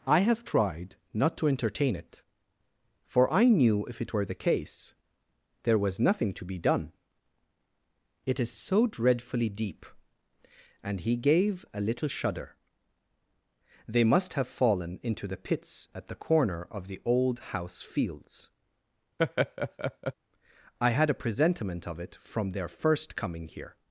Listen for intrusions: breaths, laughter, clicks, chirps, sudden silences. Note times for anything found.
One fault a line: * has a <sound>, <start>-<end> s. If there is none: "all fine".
* has a laugh, 19.2-20.1 s